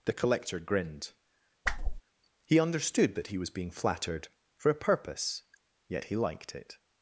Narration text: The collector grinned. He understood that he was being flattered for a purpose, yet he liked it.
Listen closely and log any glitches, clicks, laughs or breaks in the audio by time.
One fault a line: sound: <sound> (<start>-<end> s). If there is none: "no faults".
sound: whoosh (1.6-2.0 s)